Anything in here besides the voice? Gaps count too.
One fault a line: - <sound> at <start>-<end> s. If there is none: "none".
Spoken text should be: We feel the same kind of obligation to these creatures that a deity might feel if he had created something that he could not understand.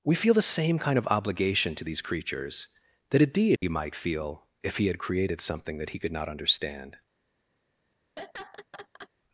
- dropout at 3.6-3.6 s
- laugh at 8.2-9.1 s